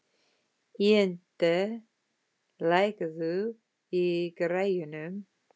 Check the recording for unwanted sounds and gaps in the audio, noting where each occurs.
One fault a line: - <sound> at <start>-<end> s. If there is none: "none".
none